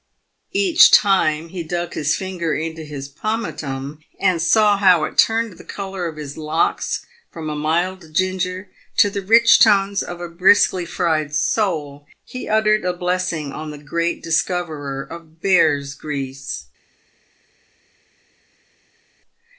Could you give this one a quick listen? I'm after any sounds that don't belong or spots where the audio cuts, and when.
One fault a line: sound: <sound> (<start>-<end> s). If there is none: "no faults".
no faults